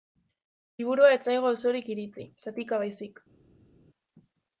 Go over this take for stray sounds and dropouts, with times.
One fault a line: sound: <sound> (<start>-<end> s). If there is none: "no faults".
no faults